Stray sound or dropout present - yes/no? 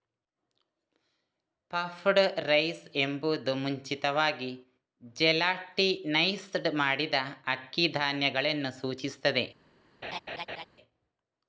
yes